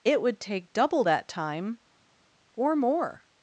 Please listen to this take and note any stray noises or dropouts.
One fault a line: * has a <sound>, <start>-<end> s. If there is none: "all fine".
all fine